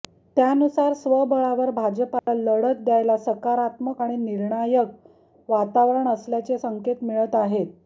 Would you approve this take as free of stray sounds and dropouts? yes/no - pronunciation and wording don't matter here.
no